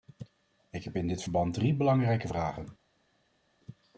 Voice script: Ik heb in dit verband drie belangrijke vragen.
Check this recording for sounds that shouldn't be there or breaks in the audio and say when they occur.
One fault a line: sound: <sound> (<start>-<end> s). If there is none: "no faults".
no faults